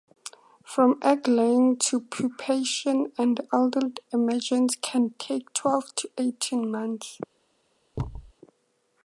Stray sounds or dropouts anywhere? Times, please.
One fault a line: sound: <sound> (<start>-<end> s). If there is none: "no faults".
sound: thud (7.9-8.3 s)